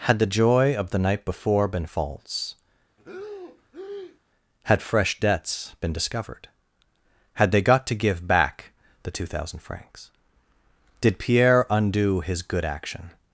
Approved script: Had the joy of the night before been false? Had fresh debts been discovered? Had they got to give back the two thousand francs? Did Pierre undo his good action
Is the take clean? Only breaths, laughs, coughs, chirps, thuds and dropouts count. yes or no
no